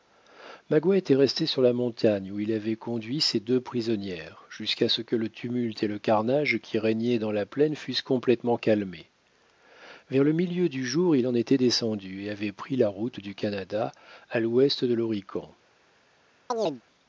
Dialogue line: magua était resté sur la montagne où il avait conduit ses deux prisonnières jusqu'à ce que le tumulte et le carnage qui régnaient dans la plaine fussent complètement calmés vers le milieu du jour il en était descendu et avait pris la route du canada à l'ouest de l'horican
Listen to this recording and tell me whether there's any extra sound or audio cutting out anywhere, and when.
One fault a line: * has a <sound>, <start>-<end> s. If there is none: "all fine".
* has a chirp, 16.5-16.8 s